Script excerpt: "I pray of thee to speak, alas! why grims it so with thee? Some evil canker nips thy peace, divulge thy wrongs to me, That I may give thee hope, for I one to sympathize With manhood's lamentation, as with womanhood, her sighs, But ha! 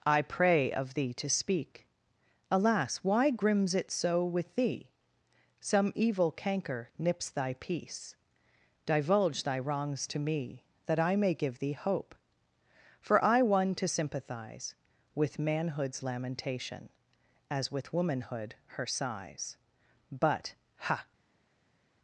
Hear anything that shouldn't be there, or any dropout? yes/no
no